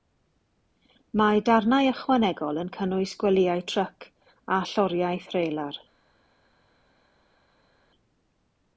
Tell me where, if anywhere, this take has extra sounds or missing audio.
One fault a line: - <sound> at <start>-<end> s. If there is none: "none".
none